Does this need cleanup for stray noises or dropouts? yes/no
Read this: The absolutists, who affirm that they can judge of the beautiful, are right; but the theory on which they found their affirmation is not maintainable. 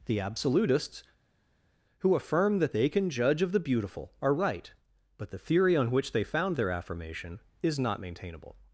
no